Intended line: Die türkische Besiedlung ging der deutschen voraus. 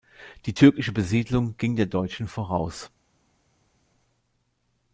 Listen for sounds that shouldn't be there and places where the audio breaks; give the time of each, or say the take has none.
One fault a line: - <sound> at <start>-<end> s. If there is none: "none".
none